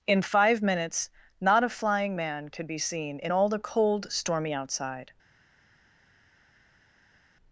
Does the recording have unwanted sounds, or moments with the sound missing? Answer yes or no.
no